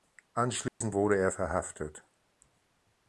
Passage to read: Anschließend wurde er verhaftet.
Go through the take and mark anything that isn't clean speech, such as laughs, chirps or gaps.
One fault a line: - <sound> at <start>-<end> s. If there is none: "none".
- dropout at 0.7-0.8 s